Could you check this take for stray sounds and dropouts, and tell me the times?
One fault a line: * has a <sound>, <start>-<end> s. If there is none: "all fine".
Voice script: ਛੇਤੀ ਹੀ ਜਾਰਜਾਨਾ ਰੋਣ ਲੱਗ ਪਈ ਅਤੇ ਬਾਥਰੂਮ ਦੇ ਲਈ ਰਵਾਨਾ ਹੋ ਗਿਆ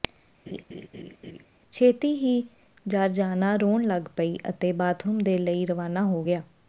* has a laugh, 0.5-1.5 s